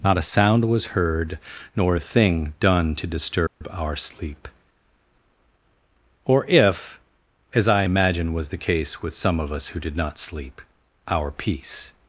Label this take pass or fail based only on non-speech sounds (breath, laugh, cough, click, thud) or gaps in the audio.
fail